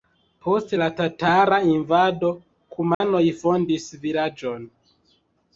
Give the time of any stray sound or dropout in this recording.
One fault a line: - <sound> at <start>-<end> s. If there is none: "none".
- dropout at 2.9-3.0 s